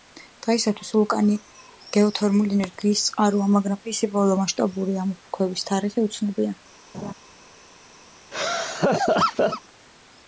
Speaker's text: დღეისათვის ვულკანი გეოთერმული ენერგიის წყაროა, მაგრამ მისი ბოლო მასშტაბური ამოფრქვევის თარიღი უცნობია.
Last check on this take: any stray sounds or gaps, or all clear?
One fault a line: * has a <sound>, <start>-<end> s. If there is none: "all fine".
* has a laugh, 6.9-7.1 s
* has a laugh, 8.3-9.6 s